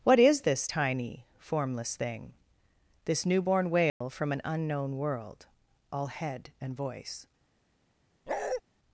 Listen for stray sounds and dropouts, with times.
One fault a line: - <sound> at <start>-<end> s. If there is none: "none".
- dropout at 3.9-4.0 s
- bark at 8.3-8.6 s